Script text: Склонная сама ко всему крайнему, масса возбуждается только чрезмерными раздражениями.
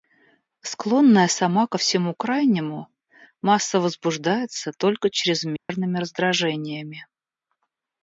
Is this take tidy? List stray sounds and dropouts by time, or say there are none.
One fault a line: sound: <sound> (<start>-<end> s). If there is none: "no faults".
sound: dropout (5.6-5.7 s)